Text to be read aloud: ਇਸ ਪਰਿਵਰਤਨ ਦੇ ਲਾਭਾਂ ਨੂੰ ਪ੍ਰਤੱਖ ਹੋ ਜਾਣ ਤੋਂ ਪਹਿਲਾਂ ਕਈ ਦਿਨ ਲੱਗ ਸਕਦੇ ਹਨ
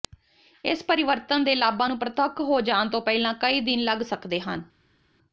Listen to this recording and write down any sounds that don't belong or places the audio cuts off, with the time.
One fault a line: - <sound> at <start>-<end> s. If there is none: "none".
none